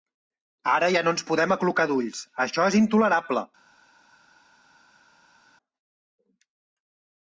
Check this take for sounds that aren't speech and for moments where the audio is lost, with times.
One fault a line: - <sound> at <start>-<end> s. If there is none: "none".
none